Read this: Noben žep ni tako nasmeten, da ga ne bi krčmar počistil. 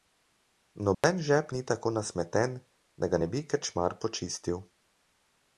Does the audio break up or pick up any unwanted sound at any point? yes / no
yes